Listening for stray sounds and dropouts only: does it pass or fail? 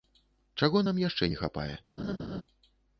fail